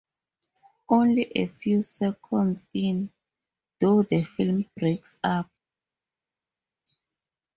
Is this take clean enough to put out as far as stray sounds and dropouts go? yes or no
yes